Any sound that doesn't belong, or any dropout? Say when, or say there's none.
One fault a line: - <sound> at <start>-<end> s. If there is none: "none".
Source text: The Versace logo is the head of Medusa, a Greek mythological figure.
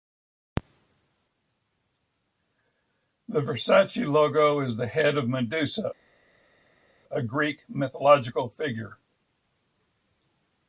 none